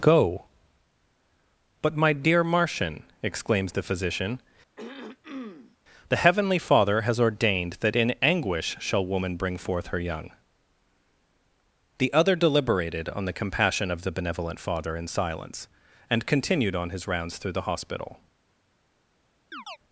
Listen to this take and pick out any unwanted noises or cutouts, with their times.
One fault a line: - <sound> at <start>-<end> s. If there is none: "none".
- throat clearing at 4.8-5.8 s
- chirp at 19.5-19.8 s